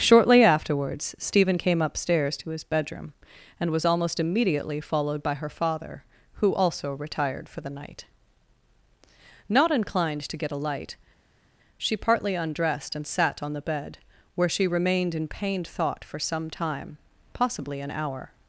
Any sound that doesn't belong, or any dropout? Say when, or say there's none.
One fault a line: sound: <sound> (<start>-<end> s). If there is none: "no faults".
no faults